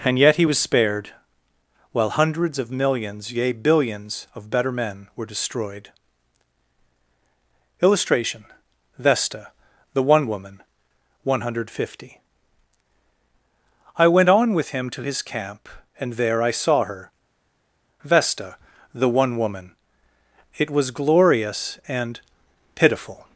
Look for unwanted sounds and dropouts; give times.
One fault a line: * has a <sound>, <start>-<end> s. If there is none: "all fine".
all fine